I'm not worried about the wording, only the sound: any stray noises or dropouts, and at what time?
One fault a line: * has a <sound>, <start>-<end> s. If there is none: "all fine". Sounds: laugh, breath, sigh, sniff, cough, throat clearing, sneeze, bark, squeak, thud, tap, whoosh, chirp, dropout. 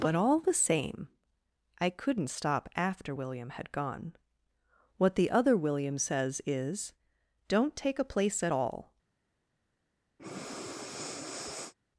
* has a breath, 10.2-11.7 s